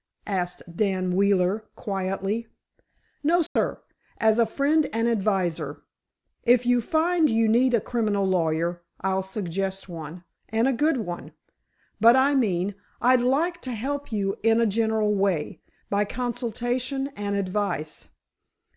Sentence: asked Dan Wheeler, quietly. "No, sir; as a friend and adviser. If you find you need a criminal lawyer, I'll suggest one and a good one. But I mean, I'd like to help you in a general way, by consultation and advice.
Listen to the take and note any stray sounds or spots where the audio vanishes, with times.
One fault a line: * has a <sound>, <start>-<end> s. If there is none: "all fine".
* has a dropout, 3.5-3.6 s